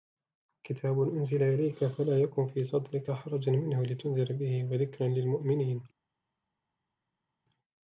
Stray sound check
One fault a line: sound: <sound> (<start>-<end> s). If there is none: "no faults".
no faults